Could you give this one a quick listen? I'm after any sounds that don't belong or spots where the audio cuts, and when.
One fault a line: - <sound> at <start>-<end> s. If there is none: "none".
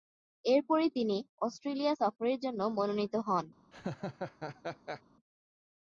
- laugh at 3.7-5.0 s